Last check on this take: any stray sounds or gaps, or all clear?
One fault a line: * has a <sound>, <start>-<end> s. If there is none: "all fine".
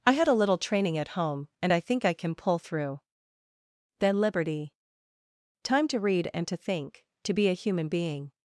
all fine